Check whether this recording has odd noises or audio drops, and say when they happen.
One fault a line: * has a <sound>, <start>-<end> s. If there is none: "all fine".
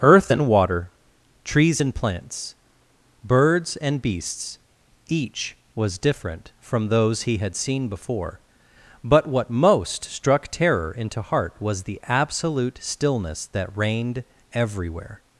all fine